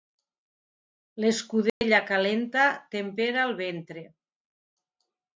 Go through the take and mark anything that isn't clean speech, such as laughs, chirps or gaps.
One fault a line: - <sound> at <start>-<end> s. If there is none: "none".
- dropout at 1.7-1.8 s